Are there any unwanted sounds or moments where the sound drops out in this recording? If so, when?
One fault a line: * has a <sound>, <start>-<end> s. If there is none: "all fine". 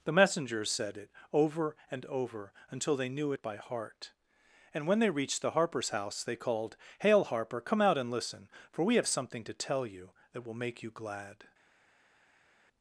all fine